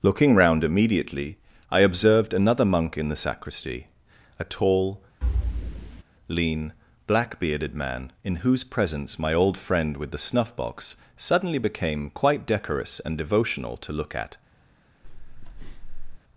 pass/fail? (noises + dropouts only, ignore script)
fail